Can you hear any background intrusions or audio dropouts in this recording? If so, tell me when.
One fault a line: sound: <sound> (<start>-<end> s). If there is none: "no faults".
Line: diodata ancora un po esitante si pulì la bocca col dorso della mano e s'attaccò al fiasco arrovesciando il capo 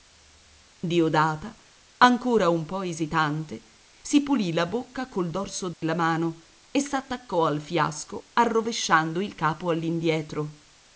sound: dropout (5.7-5.8 s)